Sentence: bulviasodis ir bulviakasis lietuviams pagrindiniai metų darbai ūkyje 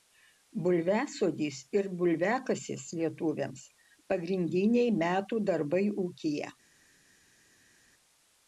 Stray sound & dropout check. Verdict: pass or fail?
pass